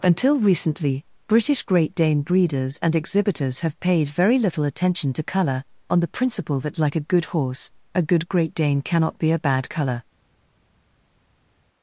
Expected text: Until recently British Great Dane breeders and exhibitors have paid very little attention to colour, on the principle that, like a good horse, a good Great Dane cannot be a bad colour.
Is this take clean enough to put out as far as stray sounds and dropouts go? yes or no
yes